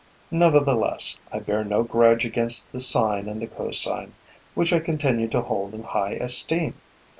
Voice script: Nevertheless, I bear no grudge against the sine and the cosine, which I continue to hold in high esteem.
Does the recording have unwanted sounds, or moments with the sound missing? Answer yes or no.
no